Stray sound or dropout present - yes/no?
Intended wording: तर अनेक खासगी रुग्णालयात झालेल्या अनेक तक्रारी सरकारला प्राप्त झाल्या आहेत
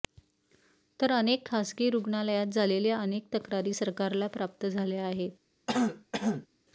yes